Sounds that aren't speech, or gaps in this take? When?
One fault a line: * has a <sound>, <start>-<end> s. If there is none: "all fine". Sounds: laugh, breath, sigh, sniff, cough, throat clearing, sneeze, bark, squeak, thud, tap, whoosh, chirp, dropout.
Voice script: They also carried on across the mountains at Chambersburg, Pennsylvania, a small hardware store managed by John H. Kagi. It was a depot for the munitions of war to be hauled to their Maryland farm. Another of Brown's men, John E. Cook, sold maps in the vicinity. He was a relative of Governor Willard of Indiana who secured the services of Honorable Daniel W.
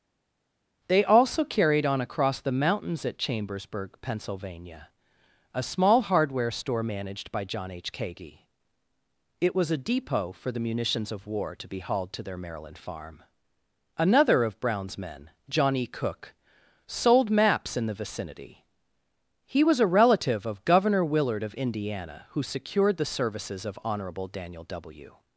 all fine